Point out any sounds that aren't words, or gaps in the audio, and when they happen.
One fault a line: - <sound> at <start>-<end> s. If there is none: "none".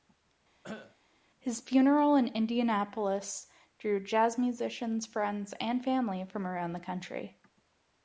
- cough at 0.6-1.0 s